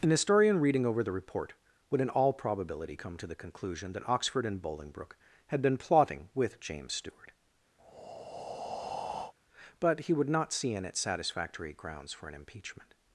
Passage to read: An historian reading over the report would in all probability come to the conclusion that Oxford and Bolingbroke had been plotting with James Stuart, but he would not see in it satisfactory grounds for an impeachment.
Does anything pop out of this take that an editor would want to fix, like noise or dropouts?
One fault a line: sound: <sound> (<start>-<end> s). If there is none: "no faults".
sound: breath (7.8-9.3 s)